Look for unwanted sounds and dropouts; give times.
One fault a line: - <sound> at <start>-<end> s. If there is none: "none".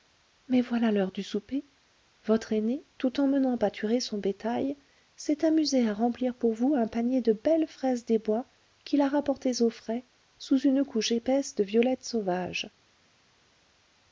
none